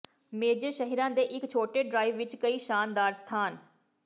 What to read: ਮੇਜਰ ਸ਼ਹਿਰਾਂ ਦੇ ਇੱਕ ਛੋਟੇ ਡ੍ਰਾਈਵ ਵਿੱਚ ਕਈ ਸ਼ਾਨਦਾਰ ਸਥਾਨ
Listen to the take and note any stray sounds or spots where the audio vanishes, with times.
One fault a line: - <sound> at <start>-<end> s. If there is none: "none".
none